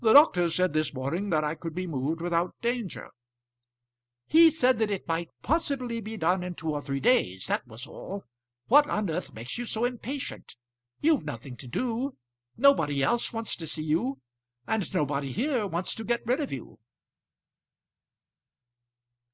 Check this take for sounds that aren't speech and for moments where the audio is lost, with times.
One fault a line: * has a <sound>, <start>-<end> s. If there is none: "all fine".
all fine